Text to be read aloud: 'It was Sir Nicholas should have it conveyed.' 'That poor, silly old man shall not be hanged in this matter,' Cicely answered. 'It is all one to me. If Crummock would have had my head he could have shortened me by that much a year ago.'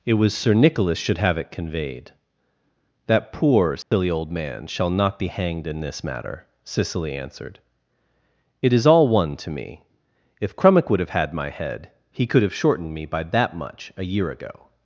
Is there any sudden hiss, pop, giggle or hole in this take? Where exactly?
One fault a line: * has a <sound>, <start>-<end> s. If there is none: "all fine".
* has a dropout, 3.8-3.9 s